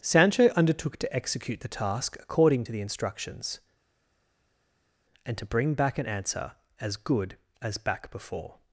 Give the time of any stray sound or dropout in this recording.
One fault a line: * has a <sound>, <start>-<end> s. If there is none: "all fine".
all fine